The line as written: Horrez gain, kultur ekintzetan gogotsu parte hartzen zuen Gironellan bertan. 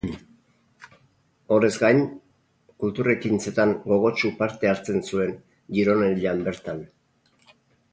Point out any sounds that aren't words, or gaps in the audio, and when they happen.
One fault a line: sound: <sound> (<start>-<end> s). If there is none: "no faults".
no faults